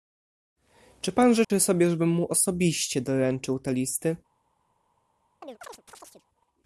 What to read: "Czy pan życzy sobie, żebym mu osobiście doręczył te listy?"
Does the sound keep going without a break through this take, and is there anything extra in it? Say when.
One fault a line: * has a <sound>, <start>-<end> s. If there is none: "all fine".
* has a dropout, 1.4-1.5 s
* has a chirp, 5.4-6.3 s